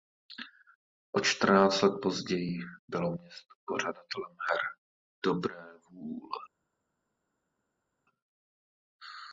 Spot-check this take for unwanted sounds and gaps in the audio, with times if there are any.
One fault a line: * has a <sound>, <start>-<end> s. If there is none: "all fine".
all fine